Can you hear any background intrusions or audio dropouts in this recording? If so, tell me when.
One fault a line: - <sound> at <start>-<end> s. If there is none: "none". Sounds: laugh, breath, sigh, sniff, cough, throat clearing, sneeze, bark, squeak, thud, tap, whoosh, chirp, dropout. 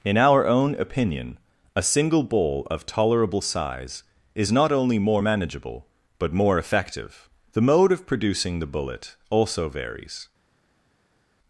none